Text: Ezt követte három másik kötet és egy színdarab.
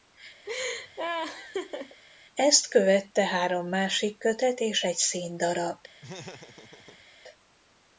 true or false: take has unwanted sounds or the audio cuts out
true